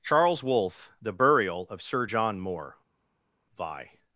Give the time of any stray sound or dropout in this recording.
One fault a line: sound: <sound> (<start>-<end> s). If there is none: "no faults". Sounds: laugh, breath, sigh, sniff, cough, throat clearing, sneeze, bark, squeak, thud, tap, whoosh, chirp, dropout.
no faults